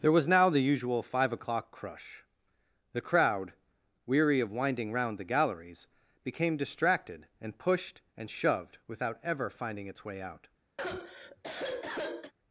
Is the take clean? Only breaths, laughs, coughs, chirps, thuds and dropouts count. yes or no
no